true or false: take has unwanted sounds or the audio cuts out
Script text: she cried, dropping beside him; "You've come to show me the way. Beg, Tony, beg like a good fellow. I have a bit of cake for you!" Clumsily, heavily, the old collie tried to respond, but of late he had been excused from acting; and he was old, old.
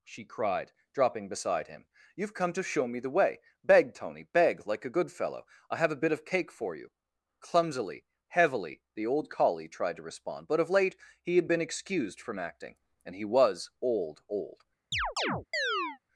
true